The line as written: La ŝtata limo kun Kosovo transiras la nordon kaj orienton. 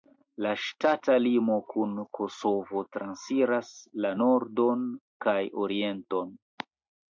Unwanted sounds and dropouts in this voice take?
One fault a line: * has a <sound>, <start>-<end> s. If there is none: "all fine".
all fine